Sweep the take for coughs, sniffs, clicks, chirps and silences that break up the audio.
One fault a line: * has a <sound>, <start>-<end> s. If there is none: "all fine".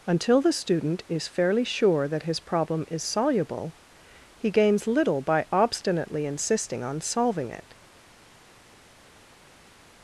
all fine